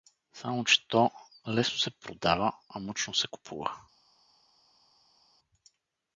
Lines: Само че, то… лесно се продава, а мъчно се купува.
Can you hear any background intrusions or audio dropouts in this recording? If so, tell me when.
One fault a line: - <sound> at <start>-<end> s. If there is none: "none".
none